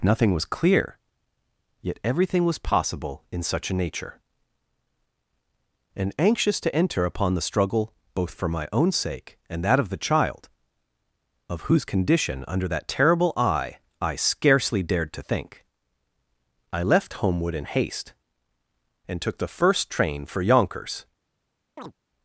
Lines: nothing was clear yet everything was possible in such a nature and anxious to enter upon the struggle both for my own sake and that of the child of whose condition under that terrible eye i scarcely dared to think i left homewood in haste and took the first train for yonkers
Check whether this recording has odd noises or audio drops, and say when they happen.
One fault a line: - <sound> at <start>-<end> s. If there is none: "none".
- chirp at 21.8-21.9 s